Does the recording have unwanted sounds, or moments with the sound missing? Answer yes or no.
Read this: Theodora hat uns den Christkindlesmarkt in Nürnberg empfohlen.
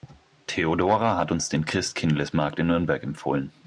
no